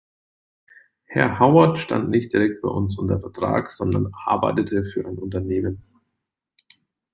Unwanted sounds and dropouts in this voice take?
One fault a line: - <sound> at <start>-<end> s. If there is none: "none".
none